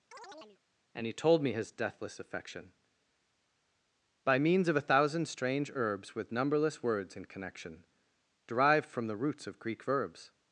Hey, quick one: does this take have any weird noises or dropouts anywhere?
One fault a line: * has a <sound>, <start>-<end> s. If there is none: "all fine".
* has a chirp, 0.1-0.6 s